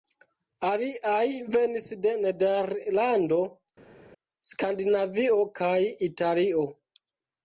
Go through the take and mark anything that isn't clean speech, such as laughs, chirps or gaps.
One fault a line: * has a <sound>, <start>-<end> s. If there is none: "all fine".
all fine